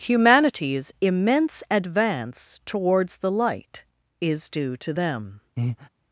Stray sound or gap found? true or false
true